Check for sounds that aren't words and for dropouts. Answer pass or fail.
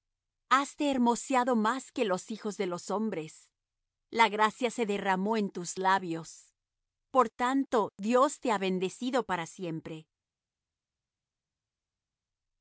pass